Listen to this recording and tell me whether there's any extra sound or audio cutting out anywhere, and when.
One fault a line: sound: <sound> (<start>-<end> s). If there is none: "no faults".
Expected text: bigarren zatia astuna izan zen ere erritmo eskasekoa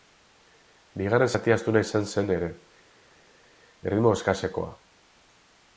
no faults